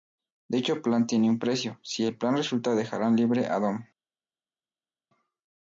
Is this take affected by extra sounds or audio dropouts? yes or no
no